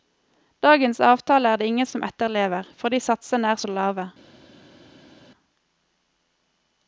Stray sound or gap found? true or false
false